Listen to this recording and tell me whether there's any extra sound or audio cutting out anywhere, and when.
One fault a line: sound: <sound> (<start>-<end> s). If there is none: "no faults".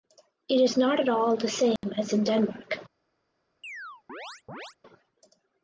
sound: dropout (1.8-1.8 s)
sound: chirp (3.6-4.8 s)